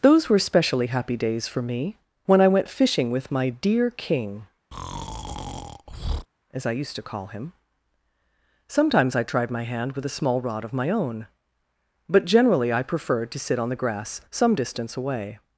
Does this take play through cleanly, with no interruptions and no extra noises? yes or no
no